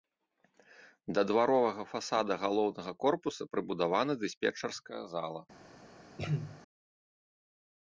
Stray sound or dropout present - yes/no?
yes